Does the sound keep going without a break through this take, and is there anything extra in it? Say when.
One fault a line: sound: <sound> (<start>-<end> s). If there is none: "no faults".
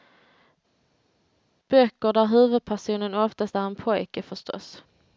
no faults